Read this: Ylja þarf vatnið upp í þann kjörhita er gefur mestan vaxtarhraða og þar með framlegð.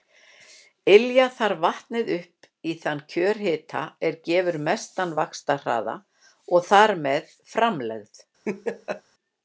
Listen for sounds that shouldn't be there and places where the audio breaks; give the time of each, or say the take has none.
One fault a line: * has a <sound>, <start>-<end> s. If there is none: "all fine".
* has a laugh, 8.4-9.0 s